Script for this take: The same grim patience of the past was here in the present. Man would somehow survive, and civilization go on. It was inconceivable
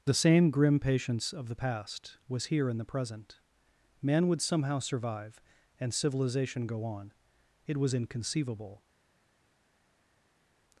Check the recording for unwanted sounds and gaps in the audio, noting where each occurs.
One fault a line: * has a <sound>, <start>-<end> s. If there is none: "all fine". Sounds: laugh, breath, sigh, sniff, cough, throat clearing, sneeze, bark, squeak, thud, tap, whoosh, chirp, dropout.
all fine